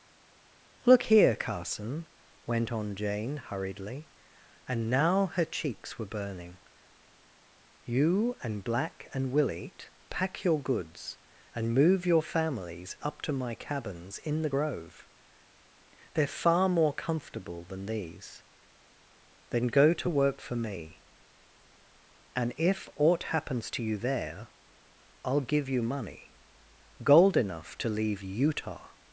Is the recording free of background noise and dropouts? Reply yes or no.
yes